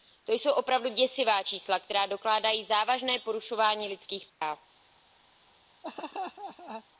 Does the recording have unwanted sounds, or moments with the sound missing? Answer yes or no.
yes